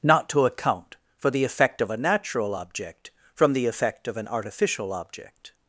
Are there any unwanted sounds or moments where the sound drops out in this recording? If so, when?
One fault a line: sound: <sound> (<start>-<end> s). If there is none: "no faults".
no faults